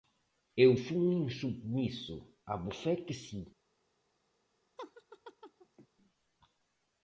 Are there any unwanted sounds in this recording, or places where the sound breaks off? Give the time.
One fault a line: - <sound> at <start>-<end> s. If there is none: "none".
- laugh at 4.8-5.9 s